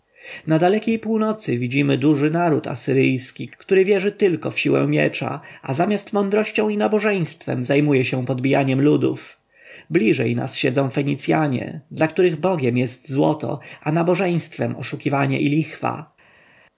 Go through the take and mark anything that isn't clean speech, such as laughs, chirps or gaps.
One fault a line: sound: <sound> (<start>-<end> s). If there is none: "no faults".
no faults